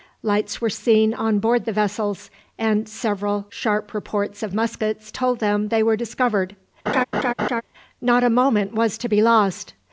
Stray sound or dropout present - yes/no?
yes